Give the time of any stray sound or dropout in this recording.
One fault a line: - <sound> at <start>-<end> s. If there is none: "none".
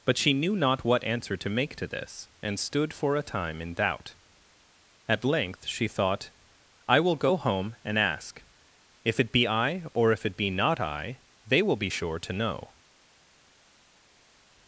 none